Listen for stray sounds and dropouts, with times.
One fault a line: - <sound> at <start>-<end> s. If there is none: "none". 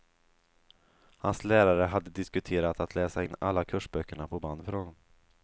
none